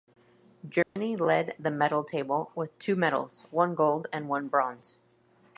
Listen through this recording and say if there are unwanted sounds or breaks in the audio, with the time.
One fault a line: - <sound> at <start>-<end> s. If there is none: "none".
- dropout at 0.8-1.0 s